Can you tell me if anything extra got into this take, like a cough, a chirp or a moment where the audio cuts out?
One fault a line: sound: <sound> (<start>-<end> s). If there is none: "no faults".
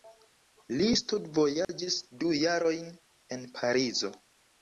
sound: dropout (1.6-1.7 s)